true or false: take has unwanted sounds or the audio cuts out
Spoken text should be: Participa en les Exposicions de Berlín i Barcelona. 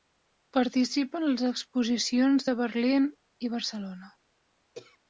true